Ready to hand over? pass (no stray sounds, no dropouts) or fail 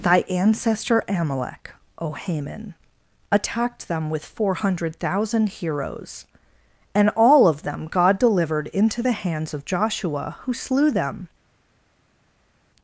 pass